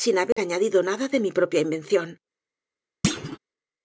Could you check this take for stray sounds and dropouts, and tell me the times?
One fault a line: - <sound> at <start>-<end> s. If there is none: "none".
- dropout at 0.3-0.4 s
- thud at 3.0-3.4 s